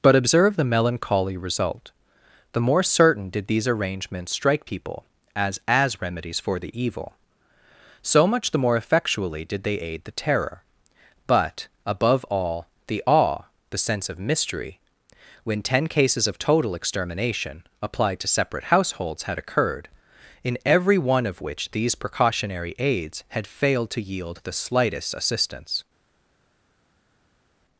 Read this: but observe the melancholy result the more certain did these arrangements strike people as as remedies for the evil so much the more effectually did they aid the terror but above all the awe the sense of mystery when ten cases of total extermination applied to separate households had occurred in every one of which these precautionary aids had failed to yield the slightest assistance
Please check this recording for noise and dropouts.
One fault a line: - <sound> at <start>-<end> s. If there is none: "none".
none